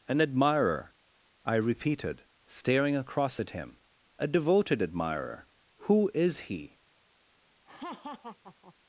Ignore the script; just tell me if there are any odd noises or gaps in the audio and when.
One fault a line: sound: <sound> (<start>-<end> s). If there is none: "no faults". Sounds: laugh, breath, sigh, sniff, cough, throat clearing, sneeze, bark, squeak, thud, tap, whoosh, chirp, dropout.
sound: laugh (7.7-8.7 s)